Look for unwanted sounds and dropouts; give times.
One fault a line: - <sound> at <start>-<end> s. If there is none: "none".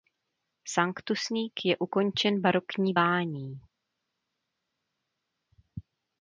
none